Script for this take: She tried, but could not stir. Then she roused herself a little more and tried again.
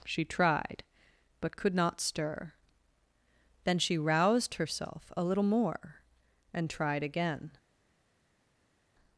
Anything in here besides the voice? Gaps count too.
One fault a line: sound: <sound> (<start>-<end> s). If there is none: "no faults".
no faults